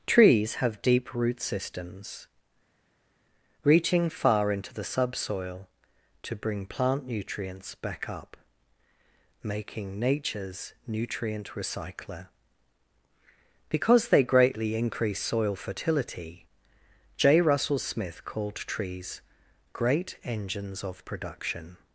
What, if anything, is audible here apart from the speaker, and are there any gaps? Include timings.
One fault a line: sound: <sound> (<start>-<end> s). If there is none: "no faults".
no faults